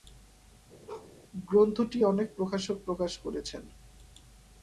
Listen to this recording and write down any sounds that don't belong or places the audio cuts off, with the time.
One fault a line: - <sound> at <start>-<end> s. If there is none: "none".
- bark at 0.9-1.1 s